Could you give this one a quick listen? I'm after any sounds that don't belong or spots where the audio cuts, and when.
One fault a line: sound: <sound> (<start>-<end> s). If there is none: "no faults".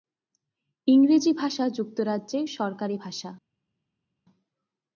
no faults